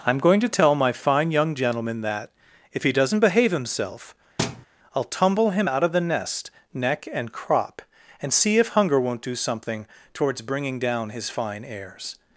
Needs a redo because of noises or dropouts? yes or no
yes